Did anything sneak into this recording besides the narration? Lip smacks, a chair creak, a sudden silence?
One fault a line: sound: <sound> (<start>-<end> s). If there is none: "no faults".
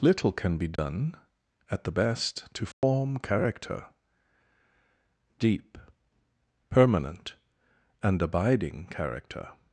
sound: dropout (0.8-0.8 s)
sound: dropout (2.7-2.8 s)